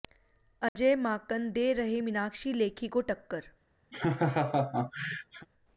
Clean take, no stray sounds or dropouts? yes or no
no